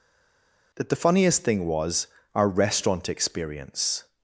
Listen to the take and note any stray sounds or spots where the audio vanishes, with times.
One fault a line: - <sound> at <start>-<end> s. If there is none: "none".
none